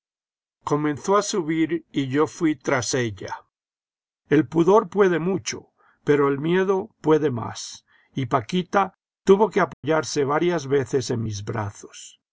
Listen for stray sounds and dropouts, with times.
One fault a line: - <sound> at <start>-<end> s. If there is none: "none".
- dropout at 9.7-9.8 s